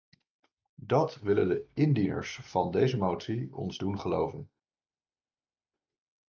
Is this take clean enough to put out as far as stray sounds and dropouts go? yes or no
yes